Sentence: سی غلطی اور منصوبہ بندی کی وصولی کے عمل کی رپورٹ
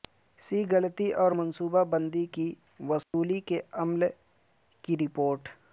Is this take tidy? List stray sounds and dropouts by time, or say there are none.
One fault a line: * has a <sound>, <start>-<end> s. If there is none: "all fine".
* has a dropout, 3.0-3.1 s